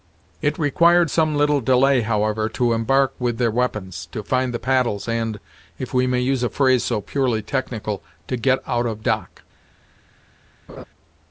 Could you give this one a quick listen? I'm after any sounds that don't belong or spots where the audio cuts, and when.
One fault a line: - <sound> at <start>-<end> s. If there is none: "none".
- laugh at 10.7-10.9 s